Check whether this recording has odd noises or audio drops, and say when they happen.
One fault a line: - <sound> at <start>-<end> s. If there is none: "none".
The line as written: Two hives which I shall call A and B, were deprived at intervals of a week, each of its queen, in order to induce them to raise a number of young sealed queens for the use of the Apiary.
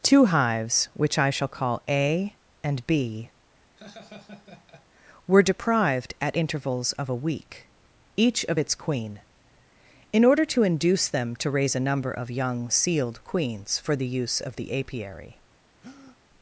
- laugh at 3.8-4.9 s
- breath at 15.8-16.2 s